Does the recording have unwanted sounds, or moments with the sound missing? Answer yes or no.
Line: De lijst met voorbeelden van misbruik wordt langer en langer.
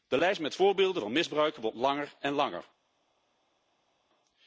no